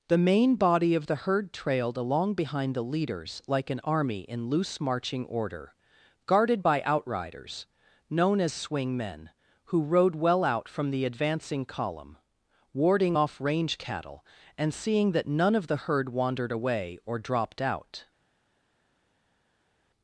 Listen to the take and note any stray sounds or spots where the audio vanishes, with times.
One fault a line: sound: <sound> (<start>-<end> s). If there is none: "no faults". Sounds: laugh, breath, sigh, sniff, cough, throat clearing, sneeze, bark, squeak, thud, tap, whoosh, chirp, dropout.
no faults